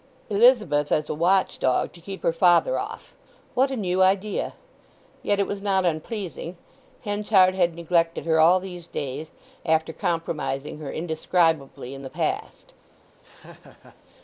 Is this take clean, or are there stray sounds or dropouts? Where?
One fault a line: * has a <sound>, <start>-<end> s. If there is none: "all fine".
* has a laugh, 13.2-14.0 s